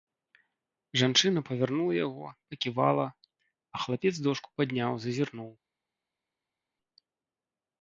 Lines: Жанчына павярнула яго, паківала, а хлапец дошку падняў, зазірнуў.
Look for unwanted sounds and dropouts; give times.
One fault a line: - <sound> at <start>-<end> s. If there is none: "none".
none